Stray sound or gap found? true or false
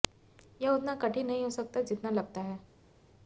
false